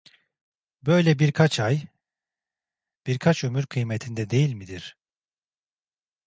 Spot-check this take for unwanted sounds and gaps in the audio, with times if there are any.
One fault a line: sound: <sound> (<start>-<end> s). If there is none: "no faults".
no faults